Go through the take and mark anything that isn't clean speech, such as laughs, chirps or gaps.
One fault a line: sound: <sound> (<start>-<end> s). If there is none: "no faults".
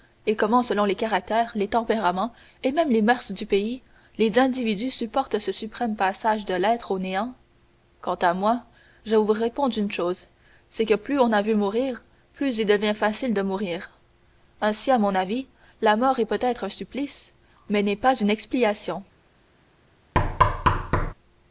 sound: thud (20.1-21.1 s)